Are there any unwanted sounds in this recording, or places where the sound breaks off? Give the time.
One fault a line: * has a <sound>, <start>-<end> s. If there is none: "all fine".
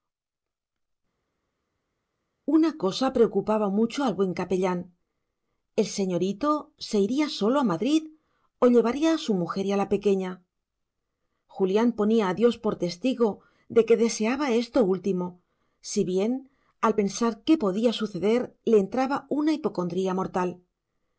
all fine